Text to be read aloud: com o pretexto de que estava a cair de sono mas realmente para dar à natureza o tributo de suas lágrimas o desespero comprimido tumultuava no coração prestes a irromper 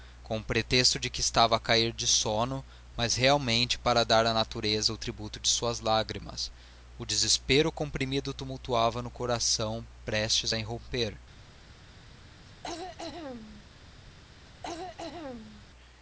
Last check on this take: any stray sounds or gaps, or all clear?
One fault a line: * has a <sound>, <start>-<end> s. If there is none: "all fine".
* has a throat clearing, 12.5-13.6 s
* has a throat clearing, 14.5-15.6 s